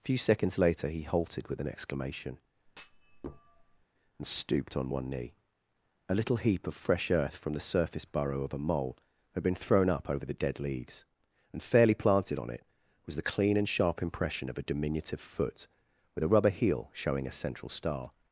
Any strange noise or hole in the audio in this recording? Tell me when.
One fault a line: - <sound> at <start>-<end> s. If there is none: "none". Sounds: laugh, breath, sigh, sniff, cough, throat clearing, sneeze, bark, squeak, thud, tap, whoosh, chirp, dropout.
- thud at 2.7-3.9 s